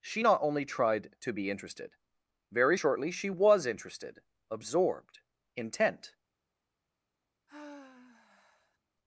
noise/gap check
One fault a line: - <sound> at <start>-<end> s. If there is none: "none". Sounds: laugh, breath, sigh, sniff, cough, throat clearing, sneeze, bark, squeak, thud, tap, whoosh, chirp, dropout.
- sigh at 7.5-8.8 s